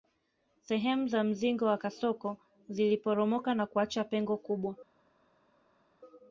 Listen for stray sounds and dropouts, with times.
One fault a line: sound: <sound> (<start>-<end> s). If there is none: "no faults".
no faults